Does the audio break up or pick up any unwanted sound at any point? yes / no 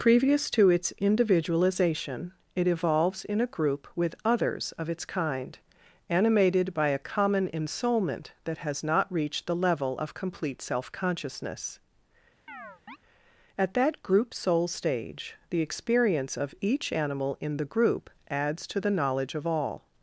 yes